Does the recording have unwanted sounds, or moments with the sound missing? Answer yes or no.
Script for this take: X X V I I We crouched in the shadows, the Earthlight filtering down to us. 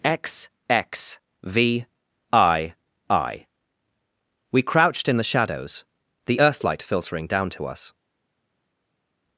no